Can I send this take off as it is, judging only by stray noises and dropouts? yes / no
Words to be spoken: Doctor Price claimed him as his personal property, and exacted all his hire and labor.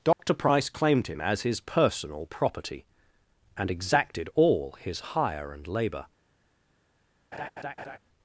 no